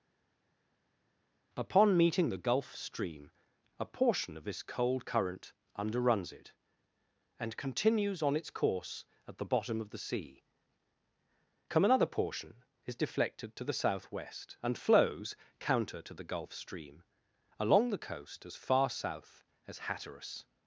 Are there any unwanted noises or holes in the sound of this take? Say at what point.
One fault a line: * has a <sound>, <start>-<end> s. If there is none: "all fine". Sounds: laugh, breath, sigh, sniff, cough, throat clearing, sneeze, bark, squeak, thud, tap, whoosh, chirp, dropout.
all fine